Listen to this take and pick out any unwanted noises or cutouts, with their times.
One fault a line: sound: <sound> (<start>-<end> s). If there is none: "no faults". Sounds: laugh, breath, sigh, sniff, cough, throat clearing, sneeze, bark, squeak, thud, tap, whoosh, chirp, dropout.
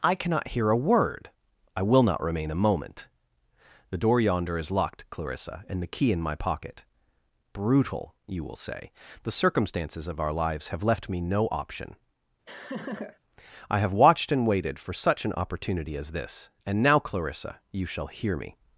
sound: laugh (12.5-13.2 s)